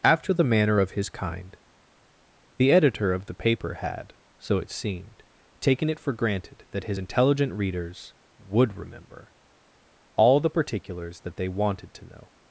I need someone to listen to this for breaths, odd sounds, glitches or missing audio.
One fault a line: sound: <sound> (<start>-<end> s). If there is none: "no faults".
no faults